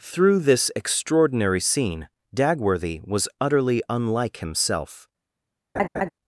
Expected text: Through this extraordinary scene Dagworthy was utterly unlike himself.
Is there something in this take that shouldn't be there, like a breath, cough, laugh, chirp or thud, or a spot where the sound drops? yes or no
yes